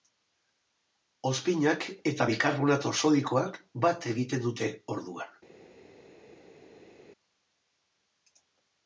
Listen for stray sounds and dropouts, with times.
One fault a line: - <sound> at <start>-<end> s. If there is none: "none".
none